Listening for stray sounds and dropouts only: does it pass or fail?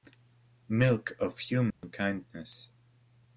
fail